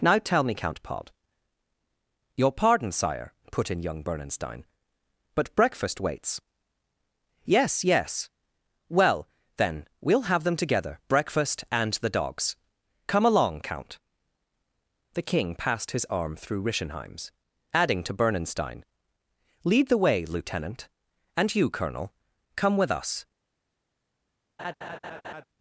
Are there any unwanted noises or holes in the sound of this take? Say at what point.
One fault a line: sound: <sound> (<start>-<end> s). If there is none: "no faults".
sound: laugh (24.6-25.4 s)